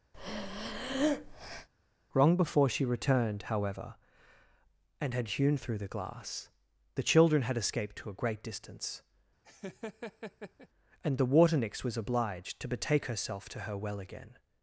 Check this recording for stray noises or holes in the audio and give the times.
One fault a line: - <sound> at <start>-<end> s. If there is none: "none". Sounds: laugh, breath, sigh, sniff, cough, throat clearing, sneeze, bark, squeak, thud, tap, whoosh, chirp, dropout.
- breath at 0.1-1.7 s
- laugh at 9.4-10.7 s